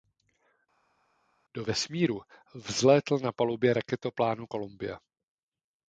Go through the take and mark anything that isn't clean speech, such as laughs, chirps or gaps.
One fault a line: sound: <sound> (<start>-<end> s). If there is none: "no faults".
no faults